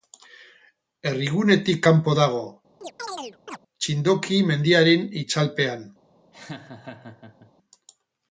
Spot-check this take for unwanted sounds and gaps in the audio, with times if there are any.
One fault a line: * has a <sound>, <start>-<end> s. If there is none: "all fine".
* has a chirp, 2.8-3.6 s
* has a laugh, 6.3-7.5 s